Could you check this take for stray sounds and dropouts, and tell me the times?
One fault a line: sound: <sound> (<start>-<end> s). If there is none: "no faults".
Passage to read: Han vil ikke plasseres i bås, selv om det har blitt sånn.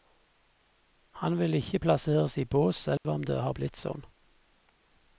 sound: dropout (3.0-3.0 s)